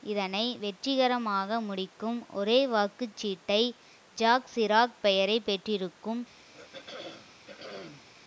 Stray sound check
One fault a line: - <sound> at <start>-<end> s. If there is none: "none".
- throat clearing at 6.5-8.1 s